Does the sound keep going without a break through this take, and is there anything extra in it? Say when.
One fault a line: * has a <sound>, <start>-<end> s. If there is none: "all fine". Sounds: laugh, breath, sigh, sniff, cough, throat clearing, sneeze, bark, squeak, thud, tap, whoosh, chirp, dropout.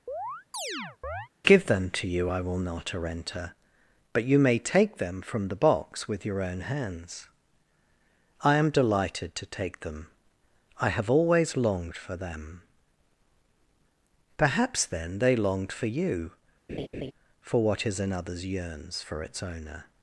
* has a chirp, 0.1-1.3 s
* has a laugh, 16.7-17.1 s